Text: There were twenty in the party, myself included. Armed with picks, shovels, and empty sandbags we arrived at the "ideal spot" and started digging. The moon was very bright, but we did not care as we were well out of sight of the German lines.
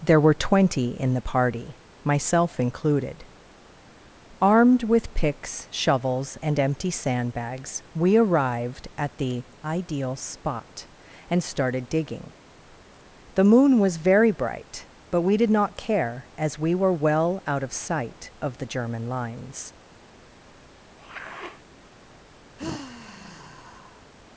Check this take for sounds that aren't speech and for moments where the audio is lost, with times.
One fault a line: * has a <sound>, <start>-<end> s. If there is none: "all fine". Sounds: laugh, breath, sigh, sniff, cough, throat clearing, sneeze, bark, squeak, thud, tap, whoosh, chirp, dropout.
* has a sniff, 21.0-21.6 s
* has a sigh, 22.6-24.1 s